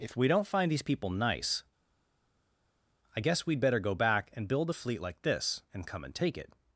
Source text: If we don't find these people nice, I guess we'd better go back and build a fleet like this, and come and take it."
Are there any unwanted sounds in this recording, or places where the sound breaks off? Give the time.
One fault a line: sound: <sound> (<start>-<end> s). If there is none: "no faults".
no faults